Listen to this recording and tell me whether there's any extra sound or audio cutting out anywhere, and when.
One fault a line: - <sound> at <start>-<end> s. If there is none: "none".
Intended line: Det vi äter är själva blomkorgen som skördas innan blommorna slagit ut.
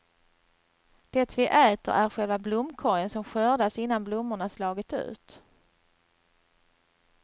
none